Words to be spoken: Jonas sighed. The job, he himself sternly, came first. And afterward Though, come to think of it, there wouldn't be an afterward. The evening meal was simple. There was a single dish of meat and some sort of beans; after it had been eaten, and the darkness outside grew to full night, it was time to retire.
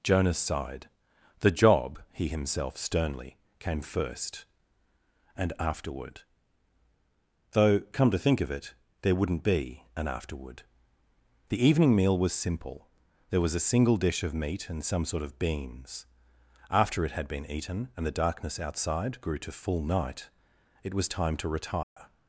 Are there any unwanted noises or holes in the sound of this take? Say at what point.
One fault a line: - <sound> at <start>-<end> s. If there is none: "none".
- dropout at 21.8-22.0 s